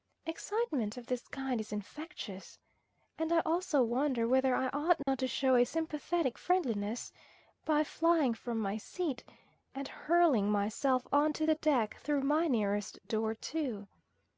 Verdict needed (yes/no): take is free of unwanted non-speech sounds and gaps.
no